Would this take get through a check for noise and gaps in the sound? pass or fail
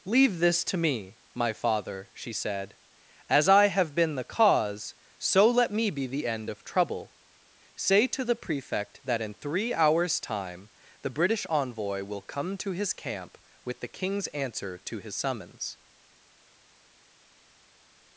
pass